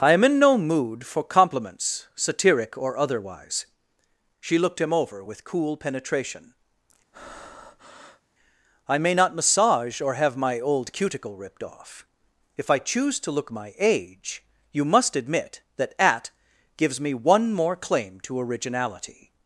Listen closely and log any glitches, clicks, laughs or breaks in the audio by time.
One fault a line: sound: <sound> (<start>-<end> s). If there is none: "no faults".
sound: breath (7.1-8.2 s)